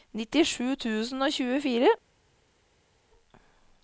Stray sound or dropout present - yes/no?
no